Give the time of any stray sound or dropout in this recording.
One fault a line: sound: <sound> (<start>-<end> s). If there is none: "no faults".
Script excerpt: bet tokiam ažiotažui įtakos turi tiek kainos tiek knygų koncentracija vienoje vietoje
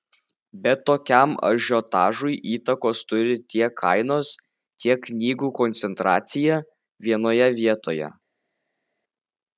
no faults